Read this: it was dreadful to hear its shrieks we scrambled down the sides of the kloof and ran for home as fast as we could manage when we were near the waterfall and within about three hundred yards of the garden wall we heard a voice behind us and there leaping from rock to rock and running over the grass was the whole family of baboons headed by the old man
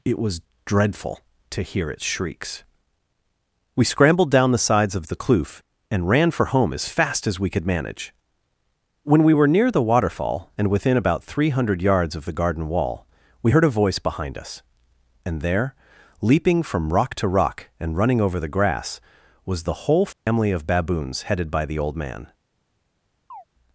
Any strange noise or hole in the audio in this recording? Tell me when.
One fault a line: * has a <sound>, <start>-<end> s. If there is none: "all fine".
* has a dropout, 20.1-20.3 s
* has a chirp, 23.3-23.4 s